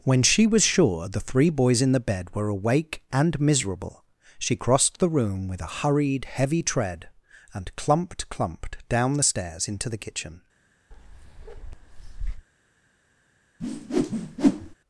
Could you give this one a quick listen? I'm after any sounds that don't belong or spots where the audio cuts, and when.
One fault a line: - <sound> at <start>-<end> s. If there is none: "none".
- bark at 10.9-12.5 s
- whoosh at 13.6-14.8 s